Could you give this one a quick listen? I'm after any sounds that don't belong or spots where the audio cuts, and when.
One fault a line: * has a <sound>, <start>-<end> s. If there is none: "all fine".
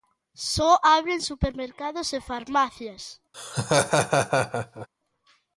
* has a laugh, 3.3-4.9 s